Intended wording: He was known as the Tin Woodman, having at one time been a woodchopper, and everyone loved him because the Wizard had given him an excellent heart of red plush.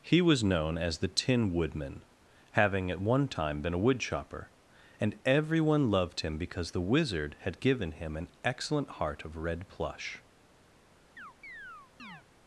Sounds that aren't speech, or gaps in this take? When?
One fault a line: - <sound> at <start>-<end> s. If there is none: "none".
- chirp at 11.2-12.2 s